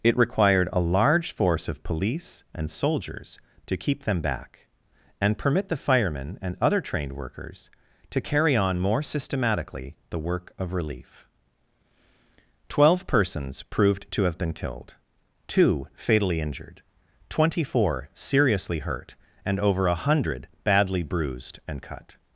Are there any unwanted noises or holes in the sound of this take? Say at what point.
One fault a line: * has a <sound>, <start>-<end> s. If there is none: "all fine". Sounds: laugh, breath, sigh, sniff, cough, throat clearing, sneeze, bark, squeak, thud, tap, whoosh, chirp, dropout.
all fine